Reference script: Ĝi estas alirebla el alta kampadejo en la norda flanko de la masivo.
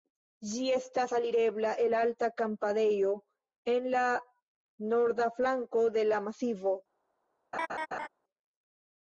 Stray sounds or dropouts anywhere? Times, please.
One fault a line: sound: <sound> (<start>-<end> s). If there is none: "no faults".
sound: laugh (7.5-8.1 s)